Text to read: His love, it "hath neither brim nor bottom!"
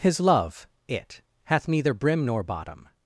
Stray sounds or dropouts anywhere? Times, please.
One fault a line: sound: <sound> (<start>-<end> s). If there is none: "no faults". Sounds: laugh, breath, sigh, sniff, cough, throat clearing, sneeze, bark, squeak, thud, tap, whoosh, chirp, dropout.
no faults